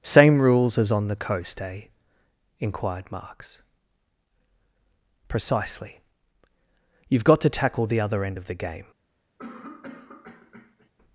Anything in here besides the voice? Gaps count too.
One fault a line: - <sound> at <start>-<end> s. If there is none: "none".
- cough at 9.4-10.9 s